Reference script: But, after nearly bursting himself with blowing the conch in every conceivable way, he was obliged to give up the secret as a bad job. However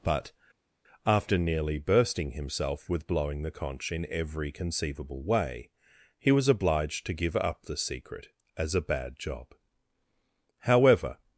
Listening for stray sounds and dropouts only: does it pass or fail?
pass